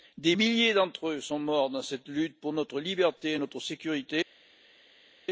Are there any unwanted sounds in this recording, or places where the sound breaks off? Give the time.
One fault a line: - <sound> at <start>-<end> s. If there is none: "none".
none